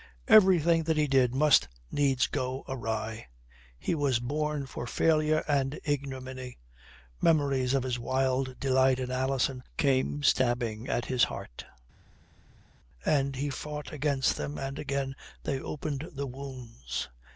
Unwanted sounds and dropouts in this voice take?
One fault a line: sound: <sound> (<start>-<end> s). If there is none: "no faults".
no faults